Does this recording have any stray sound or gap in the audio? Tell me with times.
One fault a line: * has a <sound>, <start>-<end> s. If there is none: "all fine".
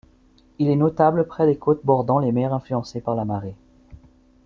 all fine